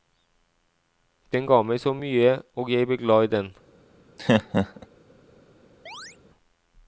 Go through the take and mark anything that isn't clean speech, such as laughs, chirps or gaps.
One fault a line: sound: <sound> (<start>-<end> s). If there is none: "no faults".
sound: laugh (4.2-4.9 s)
sound: chirp (5.9-6.2 s)